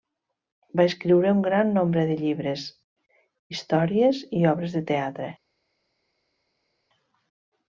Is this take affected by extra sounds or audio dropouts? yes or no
no